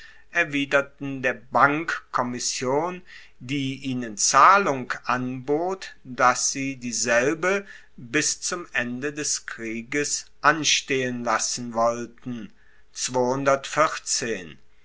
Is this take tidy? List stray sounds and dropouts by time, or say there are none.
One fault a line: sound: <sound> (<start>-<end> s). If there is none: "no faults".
no faults